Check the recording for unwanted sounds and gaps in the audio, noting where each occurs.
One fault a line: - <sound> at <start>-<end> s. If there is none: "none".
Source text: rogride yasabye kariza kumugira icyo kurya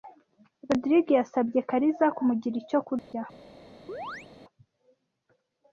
- dropout at 3.0-3.1 s
- chirp at 3.9-4.3 s